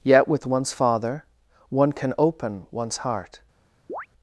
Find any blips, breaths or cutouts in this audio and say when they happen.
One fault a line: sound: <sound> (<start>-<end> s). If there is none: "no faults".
sound: chirp (3.9-4.1 s)